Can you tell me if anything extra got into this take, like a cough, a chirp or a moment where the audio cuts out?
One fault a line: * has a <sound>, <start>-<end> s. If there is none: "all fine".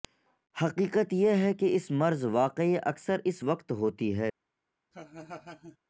* has a laugh, 4.9-5.8 s